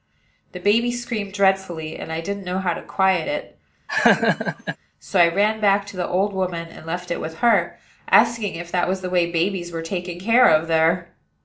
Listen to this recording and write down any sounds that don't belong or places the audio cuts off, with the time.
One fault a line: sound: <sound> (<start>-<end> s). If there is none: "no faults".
sound: laugh (3.9-4.8 s)